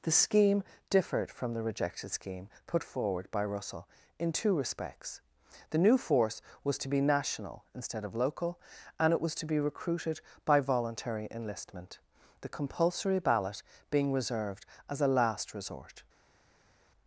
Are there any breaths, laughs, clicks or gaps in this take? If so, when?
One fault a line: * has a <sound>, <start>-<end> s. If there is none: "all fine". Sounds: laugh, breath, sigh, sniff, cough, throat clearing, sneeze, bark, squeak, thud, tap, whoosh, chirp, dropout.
all fine